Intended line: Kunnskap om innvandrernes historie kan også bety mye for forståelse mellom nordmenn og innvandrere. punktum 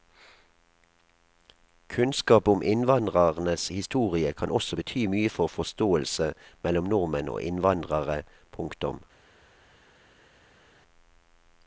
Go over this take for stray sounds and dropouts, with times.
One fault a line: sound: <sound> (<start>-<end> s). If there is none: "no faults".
no faults